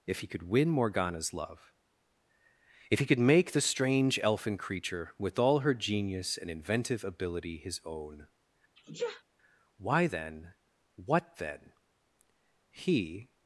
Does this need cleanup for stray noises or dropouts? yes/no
yes